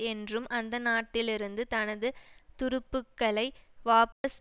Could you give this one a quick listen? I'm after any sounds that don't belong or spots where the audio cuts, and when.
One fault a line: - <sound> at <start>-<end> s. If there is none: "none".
- dropout at 4.1-4.2 s